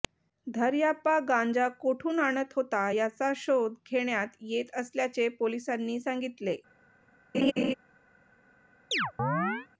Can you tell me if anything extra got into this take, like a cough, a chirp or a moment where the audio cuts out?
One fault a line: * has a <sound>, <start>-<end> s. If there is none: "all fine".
* has a laugh, 7.3-7.7 s
* has a chirp, 8.9-9.7 s